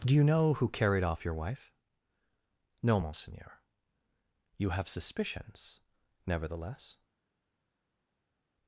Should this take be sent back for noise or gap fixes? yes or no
no